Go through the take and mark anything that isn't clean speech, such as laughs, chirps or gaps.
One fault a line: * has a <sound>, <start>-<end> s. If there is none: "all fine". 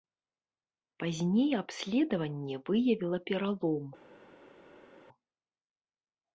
all fine